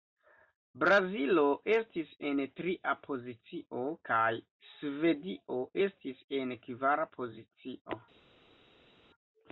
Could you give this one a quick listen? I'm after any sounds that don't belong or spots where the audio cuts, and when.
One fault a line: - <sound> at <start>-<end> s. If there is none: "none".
none